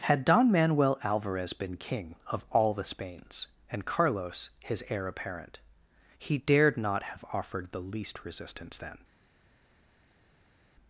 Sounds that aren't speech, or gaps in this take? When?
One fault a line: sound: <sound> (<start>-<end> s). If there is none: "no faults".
no faults